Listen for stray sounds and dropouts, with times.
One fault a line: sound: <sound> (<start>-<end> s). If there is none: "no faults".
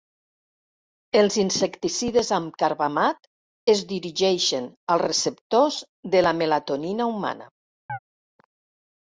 sound: chirp (7.9-8.0 s)